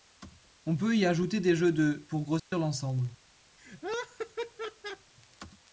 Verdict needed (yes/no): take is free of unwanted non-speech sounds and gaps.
no